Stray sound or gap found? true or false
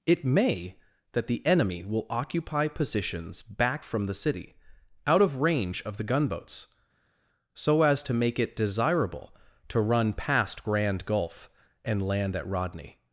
false